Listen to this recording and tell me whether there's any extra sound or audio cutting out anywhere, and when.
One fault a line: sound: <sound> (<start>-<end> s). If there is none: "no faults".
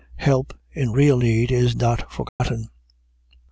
sound: dropout (2.3-2.4 s)